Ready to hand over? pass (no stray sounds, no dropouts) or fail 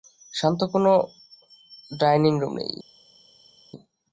pass